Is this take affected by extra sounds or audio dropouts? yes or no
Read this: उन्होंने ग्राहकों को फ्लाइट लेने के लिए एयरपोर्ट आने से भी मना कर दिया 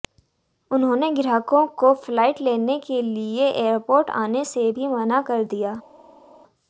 no